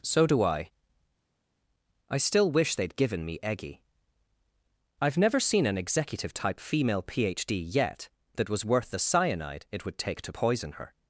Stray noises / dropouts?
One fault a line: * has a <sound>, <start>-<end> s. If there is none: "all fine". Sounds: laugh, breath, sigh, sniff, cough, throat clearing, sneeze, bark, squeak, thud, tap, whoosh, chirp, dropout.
all fine